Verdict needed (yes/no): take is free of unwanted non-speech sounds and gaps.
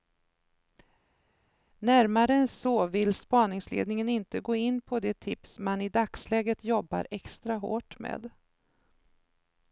yes